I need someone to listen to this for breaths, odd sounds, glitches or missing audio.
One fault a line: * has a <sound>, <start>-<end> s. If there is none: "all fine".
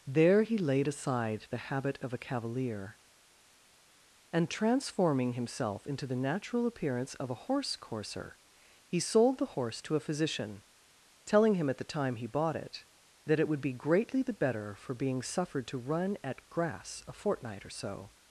all fine